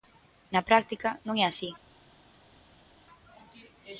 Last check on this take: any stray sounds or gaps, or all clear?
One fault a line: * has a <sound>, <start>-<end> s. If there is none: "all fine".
all fine